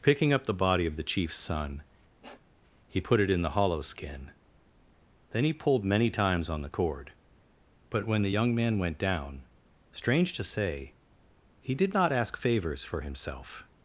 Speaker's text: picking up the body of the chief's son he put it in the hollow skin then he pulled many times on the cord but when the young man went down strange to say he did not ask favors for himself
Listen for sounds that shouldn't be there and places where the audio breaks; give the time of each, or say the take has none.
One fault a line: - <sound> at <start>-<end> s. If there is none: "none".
- sniff at 2.2-2.5 s